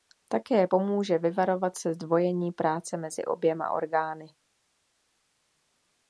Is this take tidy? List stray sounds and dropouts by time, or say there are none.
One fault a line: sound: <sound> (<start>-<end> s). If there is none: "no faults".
no faults